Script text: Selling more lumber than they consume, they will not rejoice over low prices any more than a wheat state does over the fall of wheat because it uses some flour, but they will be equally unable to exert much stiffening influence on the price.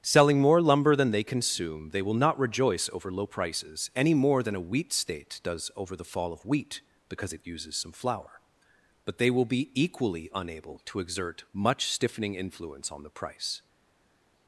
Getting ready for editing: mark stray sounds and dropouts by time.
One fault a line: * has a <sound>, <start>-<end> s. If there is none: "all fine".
all fine